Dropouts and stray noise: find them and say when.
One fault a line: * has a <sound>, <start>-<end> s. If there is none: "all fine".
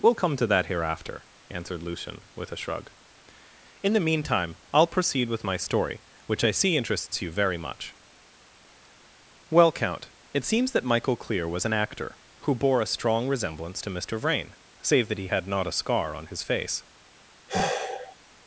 * has a sigh, 17.5-18.2 s